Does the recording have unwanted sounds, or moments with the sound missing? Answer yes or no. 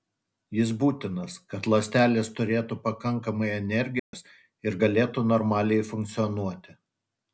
yes